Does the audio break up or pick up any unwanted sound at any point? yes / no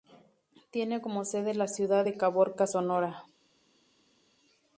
no